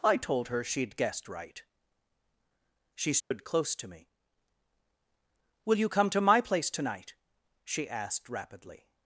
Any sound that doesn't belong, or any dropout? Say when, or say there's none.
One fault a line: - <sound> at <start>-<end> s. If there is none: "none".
- dropout at 3.2-3.3 s